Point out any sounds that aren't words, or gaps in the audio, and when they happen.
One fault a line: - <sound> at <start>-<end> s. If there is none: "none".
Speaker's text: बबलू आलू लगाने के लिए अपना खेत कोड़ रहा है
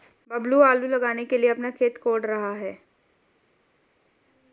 none